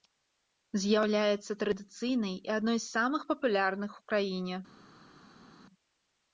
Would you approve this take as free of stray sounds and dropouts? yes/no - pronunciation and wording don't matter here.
yes